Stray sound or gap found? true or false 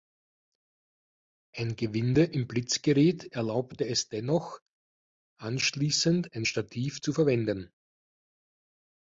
false